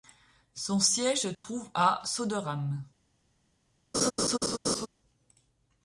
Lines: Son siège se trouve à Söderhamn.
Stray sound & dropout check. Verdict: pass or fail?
fail